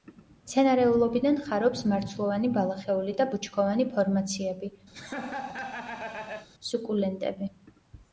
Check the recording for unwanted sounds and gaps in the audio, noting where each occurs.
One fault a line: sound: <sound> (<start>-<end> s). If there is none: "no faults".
sound: laugh (4.9-6.5 s)